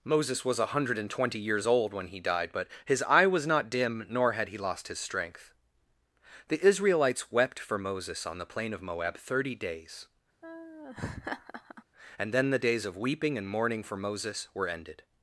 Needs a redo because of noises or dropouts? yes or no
yes